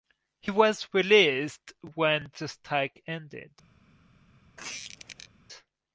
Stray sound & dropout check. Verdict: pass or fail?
fail